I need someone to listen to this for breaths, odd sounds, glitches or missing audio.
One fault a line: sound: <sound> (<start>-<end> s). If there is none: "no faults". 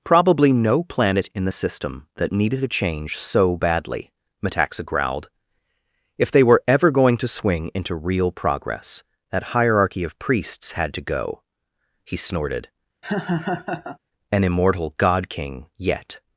sound: laugh (13.0-14.0 s)